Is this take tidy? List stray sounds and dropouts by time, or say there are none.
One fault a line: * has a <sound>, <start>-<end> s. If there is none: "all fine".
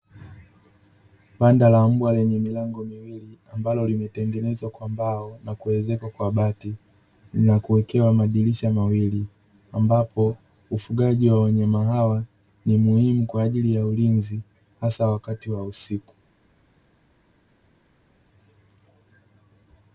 all fine